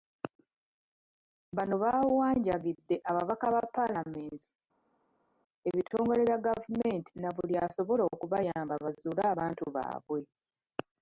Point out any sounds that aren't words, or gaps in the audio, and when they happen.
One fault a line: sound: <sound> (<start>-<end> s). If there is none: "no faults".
no faults